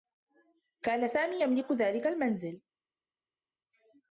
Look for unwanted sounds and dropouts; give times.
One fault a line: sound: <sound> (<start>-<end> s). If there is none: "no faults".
no faults